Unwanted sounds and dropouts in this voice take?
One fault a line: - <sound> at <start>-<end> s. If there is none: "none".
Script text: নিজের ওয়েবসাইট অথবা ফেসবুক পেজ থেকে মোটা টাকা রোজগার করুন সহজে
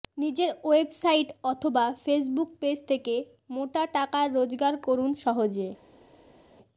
none